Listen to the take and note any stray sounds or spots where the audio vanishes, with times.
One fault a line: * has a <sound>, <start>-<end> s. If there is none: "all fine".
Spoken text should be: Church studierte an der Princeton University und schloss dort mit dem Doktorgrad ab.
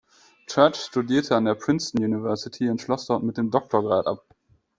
all fine